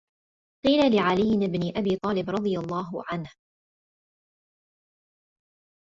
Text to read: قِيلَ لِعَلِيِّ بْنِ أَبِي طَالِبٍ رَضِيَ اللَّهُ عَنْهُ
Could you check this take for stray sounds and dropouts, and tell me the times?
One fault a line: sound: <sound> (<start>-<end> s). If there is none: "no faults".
no faults